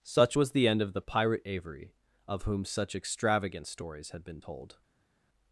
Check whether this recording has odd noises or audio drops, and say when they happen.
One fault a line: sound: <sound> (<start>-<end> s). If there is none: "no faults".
no faults